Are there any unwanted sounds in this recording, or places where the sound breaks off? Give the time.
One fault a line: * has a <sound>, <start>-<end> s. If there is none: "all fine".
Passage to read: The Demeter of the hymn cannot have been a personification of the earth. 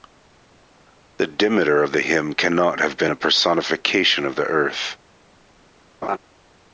* has a laugh, 6.0-6.2 s